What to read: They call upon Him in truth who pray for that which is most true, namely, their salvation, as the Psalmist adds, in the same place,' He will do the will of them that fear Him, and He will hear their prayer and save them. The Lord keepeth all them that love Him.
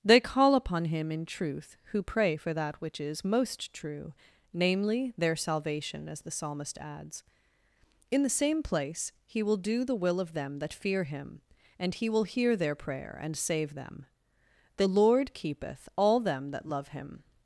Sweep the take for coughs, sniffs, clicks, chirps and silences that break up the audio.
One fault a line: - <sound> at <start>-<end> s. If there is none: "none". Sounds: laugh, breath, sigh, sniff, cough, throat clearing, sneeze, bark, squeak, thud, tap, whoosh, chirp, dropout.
none